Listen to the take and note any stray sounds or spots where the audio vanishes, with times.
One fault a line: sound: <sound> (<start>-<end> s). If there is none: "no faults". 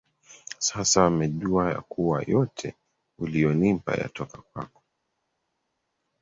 no faults